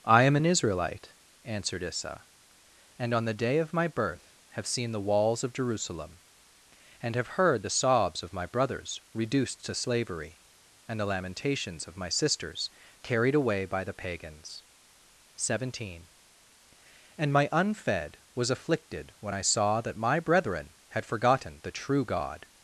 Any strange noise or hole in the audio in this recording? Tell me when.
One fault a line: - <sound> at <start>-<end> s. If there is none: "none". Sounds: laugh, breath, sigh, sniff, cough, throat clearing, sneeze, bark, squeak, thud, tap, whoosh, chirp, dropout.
none